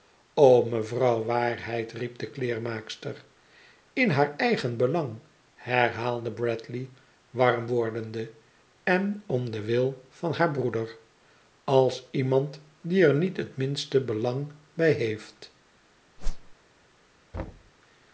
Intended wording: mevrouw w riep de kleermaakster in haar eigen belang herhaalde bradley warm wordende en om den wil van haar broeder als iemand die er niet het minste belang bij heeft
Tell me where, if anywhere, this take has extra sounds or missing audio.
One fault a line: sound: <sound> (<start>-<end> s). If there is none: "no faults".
sound: whoosh (16.2-16.5 s)
sound: thud (17.3-17.7 s)